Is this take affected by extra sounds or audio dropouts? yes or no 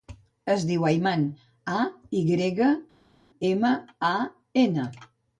no